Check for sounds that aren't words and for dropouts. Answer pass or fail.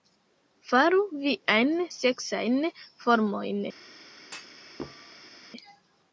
fail